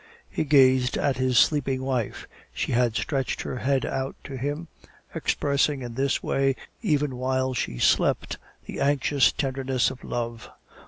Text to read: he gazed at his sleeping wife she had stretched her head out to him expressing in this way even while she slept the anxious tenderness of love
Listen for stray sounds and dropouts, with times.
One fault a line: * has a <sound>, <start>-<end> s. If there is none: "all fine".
all fine